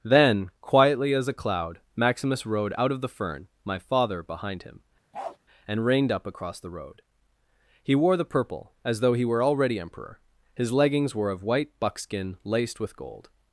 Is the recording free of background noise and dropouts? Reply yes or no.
no